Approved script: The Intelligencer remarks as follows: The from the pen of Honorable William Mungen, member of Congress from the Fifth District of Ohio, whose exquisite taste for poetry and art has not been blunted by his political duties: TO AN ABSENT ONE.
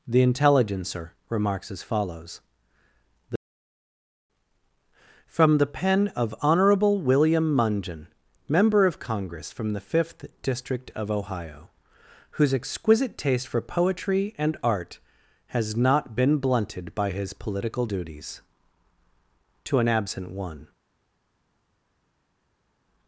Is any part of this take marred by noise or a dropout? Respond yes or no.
no